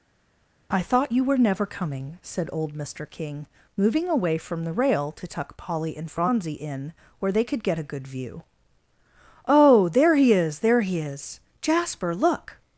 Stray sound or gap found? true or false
false